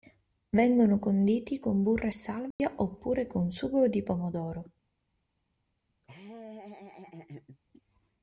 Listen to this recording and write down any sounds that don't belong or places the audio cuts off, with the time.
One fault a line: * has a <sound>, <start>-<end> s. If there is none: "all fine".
* has a dropout, 2.5-2.6 s
* has a laugh, 6.0-7.6 s